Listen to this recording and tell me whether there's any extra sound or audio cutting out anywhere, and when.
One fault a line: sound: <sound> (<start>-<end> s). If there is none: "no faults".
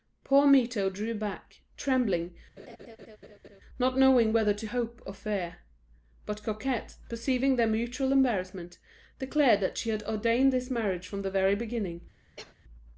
sound: laugh (2.6-3.6 s)
sound: cough (12.4-12.6 s)